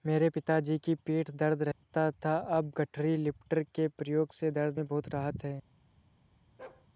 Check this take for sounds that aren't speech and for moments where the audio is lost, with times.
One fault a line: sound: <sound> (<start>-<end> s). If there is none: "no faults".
sound: dropout (1.7-1.8 s)
sound: bark (6.6-6.9 s)